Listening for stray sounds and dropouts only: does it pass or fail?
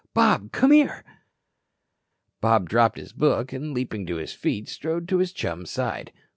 pass